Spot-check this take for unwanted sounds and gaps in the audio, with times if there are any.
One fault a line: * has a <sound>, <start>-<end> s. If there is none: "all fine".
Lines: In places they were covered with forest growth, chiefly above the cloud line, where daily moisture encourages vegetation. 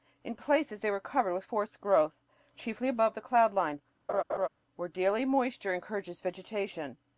* has a laugh, 4.1-4.5 s